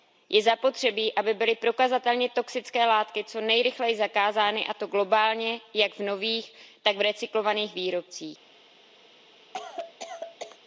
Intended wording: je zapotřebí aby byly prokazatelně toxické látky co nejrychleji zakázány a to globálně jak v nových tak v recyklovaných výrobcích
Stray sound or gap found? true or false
true